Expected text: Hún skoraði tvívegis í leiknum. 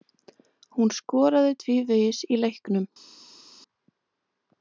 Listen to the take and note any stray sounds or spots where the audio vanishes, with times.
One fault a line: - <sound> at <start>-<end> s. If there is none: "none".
none